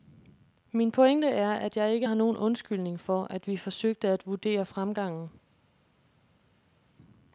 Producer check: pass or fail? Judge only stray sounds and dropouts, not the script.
pass